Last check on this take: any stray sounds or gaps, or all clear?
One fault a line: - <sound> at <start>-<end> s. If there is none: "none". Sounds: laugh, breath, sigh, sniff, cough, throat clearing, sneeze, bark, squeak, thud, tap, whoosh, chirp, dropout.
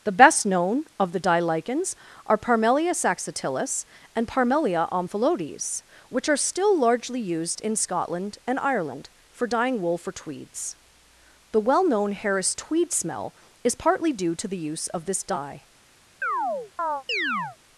- chirp at 16.2-17.6 s